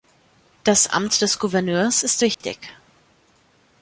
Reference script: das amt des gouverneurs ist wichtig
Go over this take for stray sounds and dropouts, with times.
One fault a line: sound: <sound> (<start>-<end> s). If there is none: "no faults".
sound: dropout (2.3-2.4 s)